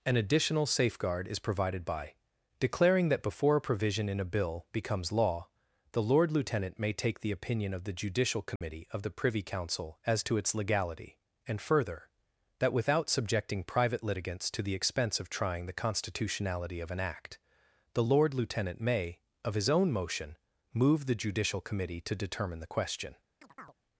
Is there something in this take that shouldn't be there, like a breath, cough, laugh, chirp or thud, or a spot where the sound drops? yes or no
yes